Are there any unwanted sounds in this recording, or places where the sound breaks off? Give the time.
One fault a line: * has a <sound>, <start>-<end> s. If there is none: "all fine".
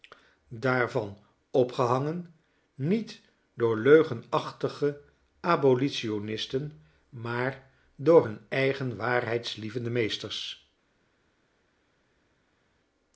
all fine